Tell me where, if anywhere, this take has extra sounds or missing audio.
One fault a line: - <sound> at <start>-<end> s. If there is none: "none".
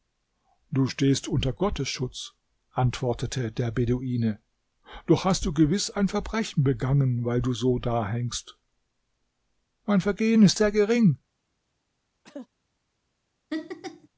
- cough at 12.2-12.5 s
- laugh at 13.5-14.1 s